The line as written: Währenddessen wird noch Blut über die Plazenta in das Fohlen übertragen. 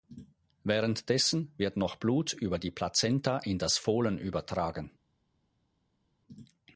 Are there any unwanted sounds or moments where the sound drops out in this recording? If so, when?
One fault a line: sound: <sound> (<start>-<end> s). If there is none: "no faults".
no faults